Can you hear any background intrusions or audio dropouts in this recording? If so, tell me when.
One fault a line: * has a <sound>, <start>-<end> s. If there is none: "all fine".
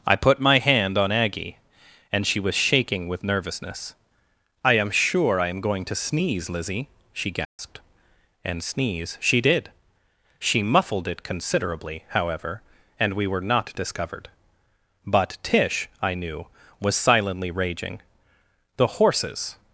* has a dropout, 7.4-7.6 s